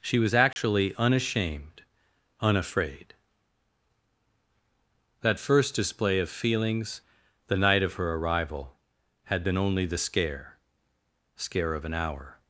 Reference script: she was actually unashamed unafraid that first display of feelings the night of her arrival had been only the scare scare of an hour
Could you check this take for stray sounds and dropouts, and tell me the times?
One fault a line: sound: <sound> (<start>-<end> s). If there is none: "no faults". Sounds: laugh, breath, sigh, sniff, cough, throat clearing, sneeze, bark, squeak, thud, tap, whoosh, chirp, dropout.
sound: dropout (0.5-0.6 s)